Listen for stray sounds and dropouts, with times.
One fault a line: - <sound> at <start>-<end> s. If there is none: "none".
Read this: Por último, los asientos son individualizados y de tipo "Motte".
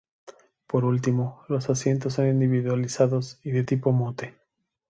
none